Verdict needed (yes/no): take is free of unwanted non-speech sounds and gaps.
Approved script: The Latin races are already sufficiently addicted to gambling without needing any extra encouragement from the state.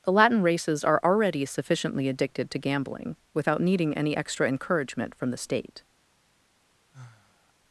no